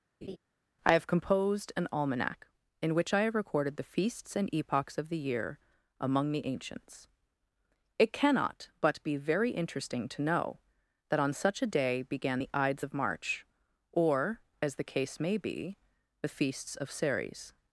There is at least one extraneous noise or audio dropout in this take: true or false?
true